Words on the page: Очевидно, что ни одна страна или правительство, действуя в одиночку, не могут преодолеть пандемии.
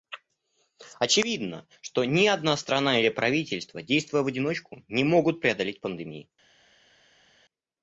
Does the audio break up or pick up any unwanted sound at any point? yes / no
no